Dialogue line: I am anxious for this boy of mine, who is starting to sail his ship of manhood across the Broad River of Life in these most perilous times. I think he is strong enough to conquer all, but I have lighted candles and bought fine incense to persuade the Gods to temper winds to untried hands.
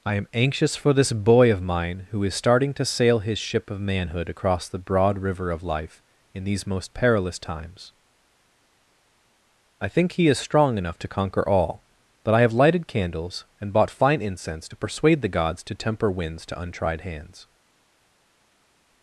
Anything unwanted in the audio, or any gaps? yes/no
no